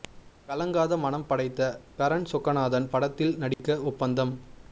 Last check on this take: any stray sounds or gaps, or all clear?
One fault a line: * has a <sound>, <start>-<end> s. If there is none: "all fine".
* has a dropout, 3.5-3.6 s